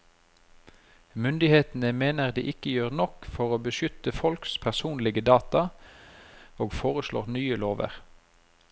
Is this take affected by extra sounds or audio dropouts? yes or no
no